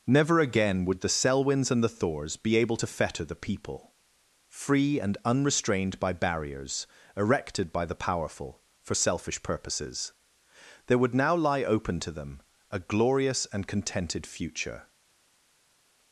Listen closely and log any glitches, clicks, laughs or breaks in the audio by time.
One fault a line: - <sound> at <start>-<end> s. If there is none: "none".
none